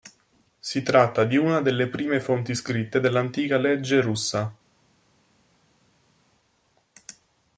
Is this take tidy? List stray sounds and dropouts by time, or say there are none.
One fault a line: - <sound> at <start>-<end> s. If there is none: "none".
none